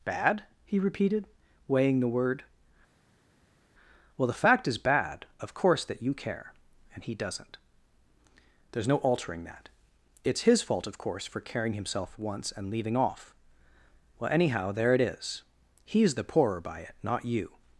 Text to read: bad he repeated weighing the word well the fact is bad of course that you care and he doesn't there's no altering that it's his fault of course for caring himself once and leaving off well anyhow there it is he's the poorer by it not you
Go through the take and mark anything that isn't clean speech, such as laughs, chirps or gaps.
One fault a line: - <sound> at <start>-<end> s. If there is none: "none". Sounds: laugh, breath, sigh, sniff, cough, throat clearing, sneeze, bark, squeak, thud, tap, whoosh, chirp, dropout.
none